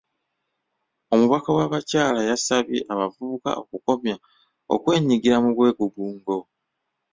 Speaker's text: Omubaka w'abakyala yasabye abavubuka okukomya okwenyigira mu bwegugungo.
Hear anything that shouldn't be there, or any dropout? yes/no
no